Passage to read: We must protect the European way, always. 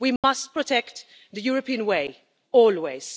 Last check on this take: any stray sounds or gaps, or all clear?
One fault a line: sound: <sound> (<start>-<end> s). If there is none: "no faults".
sound: dropout (0.2-0.2 s)